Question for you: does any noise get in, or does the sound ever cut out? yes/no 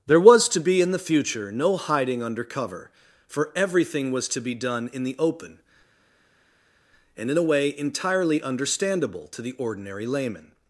no